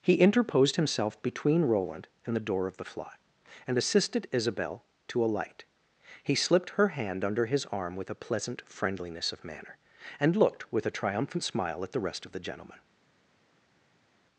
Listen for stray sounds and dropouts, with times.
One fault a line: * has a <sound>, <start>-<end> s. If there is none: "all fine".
all fine